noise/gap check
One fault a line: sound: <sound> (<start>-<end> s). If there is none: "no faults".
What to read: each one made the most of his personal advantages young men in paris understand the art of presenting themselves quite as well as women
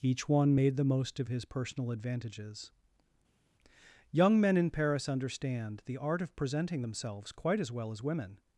no faults